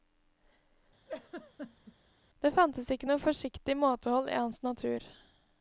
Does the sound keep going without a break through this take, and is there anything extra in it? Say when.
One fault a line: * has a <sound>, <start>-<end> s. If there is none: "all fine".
* has a laugh, 1.1-2.0 s